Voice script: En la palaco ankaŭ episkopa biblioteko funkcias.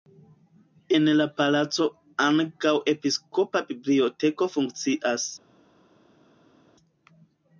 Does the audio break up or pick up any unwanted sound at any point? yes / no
no